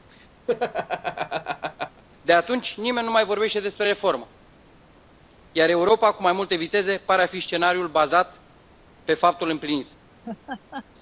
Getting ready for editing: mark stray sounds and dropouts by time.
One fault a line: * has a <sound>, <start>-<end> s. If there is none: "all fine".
* has a laugh, 0.5-2.0 s
* has a laugh, 10.2-10.9 s